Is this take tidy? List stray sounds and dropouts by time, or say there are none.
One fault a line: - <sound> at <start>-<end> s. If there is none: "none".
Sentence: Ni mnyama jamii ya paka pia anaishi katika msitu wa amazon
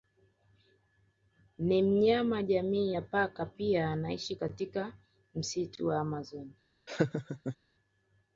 - laugh at 6.9-7.6 s